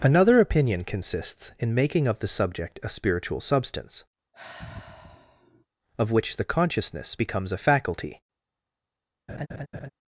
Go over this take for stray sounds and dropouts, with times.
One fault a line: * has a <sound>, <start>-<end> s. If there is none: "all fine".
* has a sigh, 4.3-5.7 s
* has a laugh, 9.3-9.9 s